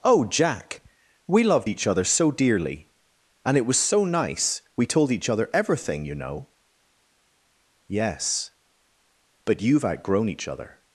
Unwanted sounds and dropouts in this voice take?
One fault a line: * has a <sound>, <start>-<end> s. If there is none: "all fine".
all fine